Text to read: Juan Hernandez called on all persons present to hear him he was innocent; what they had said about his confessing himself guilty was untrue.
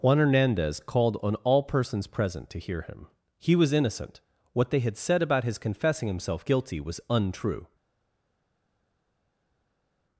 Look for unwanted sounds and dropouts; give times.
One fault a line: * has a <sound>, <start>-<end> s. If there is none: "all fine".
all fine